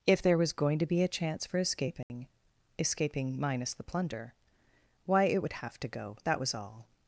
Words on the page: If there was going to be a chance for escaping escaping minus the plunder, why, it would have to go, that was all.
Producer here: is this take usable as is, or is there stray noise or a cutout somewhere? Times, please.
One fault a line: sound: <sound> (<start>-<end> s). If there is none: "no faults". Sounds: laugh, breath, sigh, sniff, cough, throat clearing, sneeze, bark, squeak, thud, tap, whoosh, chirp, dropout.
sound: dropout (2.0-2.1 s)